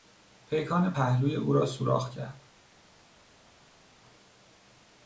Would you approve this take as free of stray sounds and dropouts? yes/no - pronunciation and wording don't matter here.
yes